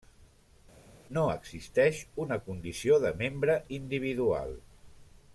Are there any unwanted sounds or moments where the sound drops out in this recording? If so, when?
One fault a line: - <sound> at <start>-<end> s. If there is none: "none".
none